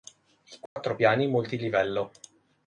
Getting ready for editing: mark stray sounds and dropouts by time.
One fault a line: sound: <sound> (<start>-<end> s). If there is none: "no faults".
sound: dropout (0.7-0.8 s)